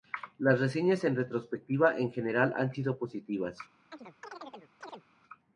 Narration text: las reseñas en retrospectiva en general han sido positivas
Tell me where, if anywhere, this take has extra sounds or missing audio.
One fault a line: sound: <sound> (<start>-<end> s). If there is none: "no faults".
sound: chirp (3.9-5.0 s)